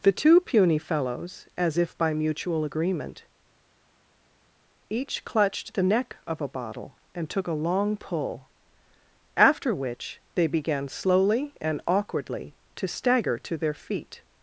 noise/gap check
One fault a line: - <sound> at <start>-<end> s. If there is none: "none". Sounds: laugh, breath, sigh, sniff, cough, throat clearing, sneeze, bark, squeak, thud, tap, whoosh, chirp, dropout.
none